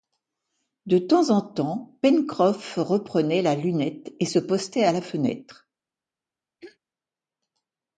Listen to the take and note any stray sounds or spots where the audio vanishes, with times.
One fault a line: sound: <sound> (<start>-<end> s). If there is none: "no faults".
sound: throat clearing (6.6-6.8 s)